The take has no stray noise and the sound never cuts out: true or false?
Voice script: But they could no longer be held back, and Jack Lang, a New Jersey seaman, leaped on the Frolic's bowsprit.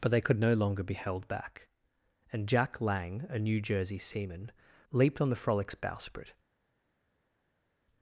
true